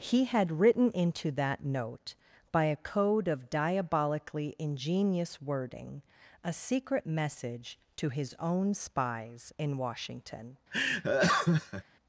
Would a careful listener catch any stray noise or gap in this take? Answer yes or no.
yes